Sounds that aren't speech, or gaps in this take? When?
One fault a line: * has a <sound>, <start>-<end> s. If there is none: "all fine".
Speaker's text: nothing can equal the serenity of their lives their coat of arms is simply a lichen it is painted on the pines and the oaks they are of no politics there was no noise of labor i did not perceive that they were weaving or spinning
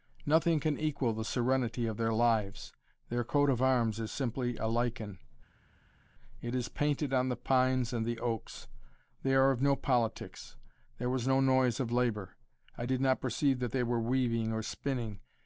all fine